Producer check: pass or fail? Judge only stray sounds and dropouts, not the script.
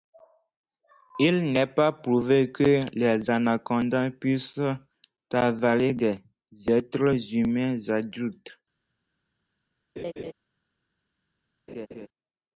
fail